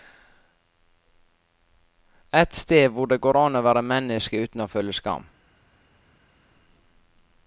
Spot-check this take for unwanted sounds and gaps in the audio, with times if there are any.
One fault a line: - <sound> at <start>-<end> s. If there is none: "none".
none